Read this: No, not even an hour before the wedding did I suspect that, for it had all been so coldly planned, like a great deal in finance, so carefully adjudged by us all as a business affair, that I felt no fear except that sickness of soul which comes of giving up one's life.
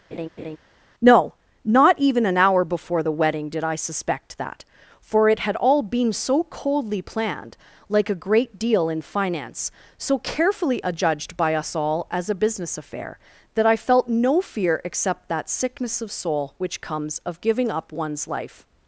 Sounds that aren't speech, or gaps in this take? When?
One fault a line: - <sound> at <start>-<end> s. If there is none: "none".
- laugh at 0.1-0.6 s